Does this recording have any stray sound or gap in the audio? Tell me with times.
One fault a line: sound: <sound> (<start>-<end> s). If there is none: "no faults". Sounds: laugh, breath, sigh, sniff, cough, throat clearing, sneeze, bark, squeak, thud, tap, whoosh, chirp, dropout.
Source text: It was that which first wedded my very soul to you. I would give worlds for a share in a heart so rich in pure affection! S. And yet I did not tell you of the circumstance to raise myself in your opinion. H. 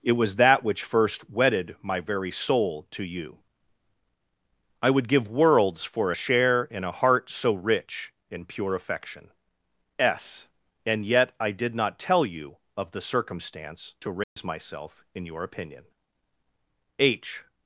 sound: dropout (14.2-14.4 s)